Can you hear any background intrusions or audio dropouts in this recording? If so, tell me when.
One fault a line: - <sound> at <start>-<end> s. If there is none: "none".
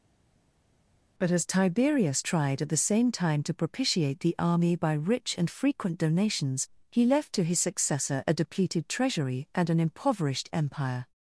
none